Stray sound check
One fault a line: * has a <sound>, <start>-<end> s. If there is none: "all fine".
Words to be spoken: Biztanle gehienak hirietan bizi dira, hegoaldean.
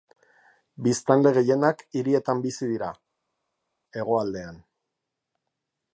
all fine